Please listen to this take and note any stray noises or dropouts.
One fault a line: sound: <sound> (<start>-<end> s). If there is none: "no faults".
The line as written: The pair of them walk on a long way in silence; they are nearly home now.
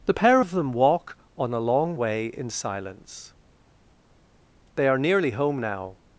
no faults